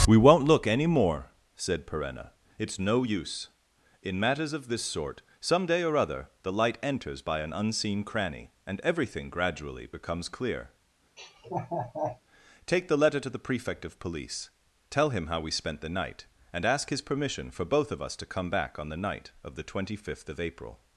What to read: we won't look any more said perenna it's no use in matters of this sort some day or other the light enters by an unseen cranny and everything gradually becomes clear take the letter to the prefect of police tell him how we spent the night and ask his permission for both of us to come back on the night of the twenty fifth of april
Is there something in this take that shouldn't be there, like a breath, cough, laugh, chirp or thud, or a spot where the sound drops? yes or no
yes